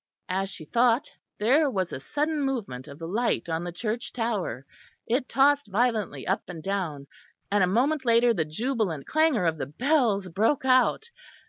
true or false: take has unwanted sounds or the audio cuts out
false